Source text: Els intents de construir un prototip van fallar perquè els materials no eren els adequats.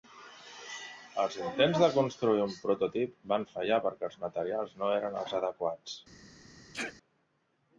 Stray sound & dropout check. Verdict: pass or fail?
fail